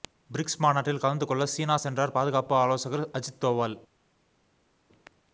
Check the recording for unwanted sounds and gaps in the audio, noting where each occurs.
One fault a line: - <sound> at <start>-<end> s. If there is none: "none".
none